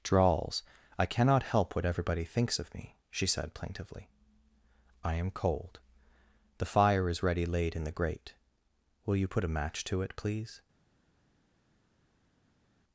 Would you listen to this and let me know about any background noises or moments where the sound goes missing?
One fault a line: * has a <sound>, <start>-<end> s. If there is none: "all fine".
all fine